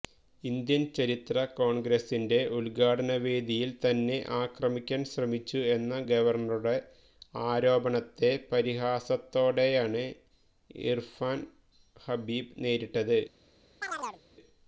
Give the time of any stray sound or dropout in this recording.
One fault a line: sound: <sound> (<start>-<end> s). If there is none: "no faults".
sound: chirp (13.8-14.2 s)